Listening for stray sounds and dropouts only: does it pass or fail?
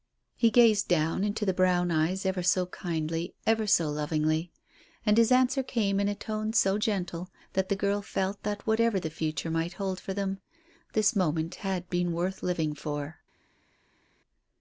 pass